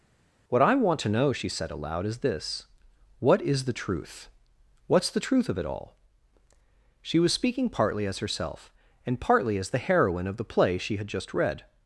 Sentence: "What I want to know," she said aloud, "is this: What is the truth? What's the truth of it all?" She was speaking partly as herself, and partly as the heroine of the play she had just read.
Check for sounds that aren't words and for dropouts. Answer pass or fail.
pass